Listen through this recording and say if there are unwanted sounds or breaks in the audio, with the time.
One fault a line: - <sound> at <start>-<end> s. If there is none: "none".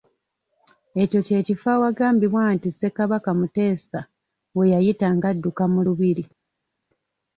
none